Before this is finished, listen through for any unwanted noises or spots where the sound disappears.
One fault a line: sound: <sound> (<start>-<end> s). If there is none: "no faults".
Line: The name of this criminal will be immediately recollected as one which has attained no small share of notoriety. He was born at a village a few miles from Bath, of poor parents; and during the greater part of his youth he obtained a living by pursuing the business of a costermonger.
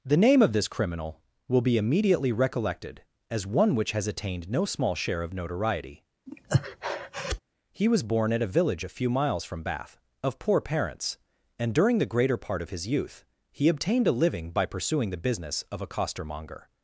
sound: breath (6.3-7.4 s)